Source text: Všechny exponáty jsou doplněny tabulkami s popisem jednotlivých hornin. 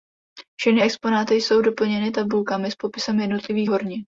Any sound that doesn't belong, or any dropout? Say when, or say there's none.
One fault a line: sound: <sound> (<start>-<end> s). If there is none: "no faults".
no faults